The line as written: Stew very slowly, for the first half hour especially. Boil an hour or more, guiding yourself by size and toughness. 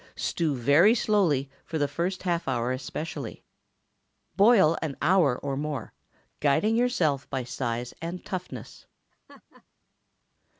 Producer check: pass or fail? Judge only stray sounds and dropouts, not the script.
fail